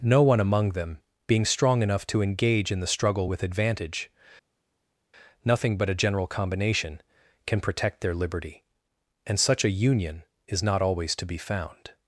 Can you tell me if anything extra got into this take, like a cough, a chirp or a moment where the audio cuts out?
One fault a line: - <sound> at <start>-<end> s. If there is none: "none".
none